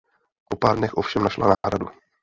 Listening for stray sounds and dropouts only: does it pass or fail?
fail